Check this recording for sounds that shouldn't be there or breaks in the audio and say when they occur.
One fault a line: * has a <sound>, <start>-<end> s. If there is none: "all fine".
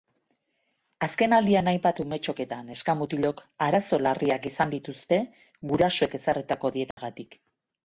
* has a dropout, 6.9-7.0 s